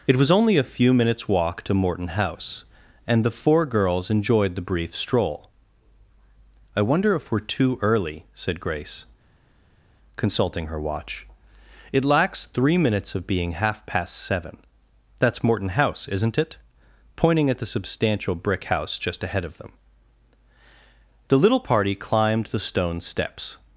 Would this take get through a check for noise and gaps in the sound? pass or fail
pass